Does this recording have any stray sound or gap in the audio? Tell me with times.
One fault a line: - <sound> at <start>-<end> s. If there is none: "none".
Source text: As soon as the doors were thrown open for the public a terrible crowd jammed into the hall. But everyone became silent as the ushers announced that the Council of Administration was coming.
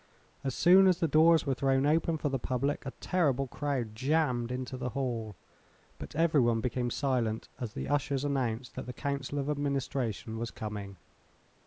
none